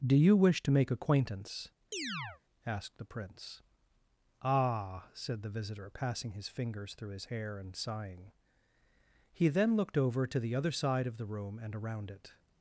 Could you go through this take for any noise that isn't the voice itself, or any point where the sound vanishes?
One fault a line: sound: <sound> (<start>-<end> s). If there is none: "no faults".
sound: chirp (1.9-2.4 s)